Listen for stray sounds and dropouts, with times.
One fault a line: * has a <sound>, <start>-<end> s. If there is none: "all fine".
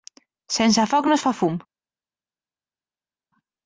all fine